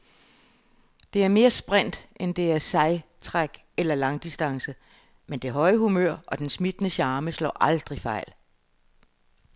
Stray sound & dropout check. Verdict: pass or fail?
pass